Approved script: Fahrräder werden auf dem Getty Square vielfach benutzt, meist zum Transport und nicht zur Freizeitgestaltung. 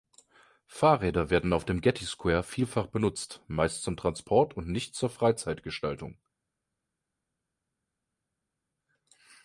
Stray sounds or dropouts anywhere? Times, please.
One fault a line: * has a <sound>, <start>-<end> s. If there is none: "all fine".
all fine